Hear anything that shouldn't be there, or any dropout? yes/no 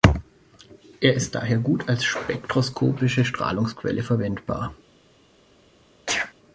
yes